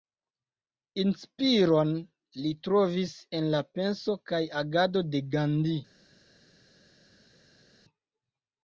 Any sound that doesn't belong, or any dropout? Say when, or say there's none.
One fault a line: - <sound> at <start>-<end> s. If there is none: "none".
none